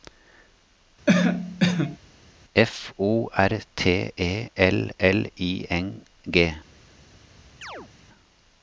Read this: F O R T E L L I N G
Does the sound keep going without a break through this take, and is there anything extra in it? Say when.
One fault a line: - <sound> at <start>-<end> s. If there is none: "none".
- cough at 1.1-2.0 s
- chirp at 7.6-7.9 s